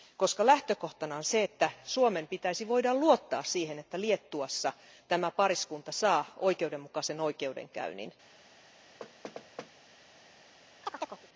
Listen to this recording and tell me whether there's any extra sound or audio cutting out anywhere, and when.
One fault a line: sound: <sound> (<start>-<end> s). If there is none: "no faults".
sound: thud (9.0-9.7 s)
sound: chirp (10.8-11.3 s)